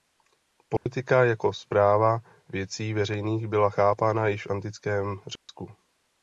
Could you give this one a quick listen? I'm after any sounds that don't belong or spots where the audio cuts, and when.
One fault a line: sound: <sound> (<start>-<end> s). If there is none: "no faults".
sound: dropout (0.8-0.9 s)
sound: dropout (5.4-5.5 s)